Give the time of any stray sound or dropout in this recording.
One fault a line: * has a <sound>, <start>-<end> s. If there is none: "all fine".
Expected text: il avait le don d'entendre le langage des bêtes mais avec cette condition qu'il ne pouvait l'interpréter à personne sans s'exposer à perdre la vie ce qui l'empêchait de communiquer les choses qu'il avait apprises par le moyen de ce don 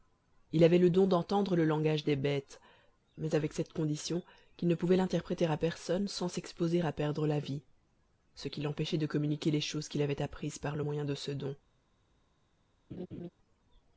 * has a laugh, 12.9-13.3 s